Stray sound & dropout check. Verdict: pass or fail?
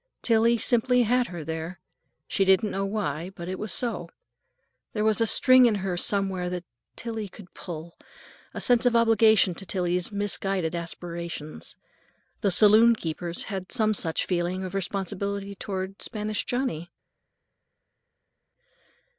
pass